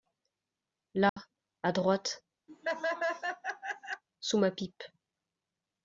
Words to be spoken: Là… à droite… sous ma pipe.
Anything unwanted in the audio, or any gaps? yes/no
yes